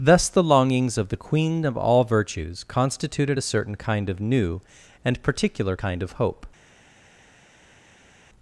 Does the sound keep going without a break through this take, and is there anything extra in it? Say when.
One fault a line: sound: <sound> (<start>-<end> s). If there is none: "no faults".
no faults